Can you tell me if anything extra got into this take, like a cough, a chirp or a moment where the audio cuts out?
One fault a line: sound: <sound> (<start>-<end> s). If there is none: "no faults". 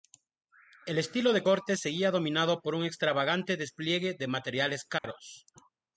sound: dropout (5.0-5.0 s)